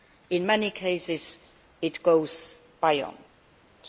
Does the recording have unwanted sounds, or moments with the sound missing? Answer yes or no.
no